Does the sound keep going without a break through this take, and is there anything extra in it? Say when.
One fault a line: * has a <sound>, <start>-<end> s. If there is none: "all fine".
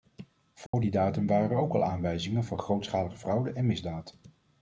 * has a dropout, 0.7-0.7 s